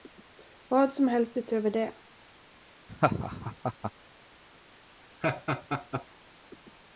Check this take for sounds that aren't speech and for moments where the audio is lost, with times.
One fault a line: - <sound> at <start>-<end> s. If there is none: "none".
- laugh at 2.9-3.9 s
- laugh at 5.2-6.1 s